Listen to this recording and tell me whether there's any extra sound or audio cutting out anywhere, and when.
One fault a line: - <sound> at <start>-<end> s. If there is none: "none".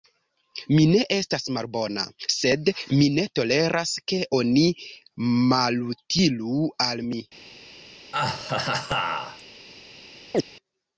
- laugh at 8.1-9.4 s
- chirp at 10.3-10.4 s